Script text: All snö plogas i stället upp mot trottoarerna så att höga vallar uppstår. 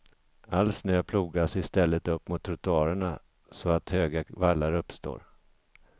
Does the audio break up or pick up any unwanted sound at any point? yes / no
no